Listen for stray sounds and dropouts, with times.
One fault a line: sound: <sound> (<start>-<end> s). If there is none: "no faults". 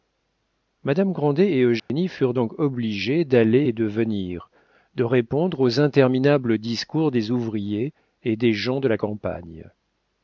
sound: dropout (1.8-1.9 s)